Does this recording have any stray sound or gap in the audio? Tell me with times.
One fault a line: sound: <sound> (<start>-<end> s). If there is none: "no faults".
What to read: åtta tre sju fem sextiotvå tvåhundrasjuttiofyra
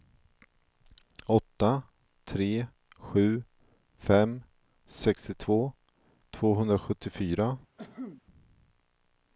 sound: cough (7.8-8.2 s)